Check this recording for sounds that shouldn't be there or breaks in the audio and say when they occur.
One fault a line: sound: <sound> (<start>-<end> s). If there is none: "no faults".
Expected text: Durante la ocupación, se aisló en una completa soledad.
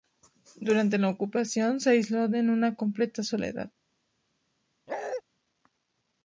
sound: bark (4.9-5.2 s)